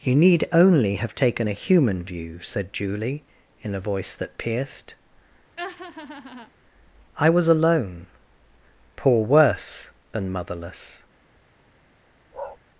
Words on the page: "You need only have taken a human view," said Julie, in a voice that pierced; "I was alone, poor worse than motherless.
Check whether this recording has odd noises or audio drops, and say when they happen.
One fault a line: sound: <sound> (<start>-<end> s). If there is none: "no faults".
sound: laugh (5.6-6.5 s)
sound: bark (12.3-12.6 s)